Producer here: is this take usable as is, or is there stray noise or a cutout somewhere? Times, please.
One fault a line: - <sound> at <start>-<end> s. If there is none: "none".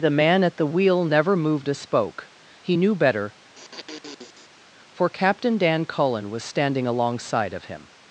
- sniff at 3.5-4.6 s